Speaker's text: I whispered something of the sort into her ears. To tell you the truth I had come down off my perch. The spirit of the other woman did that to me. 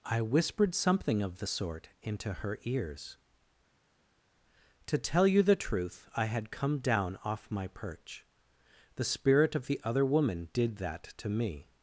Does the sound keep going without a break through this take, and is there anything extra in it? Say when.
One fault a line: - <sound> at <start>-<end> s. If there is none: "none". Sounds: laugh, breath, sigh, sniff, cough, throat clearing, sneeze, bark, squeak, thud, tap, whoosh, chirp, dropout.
none